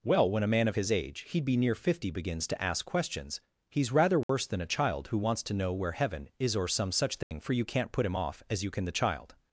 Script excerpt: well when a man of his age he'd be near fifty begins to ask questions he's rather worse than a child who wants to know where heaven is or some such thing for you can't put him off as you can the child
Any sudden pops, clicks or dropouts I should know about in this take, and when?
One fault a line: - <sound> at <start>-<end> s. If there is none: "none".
- dropout at 4.2-4.3 s
- dropout at 7.2-7.3 s